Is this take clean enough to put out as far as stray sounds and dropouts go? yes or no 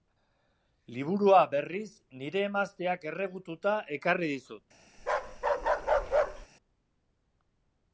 no